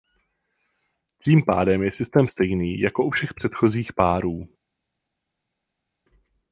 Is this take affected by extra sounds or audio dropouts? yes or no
no